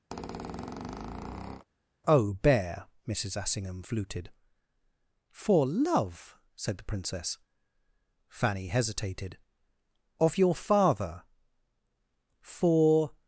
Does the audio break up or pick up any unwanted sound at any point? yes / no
yes